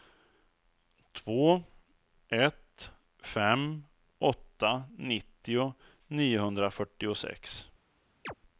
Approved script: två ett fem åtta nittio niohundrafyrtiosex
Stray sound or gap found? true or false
true